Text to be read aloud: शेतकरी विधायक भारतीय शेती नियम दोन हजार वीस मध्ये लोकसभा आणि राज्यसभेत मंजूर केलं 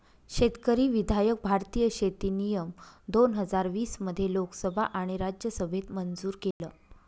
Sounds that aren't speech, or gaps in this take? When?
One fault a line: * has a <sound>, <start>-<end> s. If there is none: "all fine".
* has a dropout, 6.5-6.6 s